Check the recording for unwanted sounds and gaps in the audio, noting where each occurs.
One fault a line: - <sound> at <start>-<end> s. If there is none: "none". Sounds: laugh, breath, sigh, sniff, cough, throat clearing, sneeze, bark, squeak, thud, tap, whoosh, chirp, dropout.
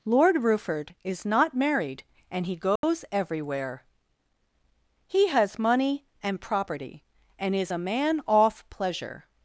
- dropout at 2.8-2.8 s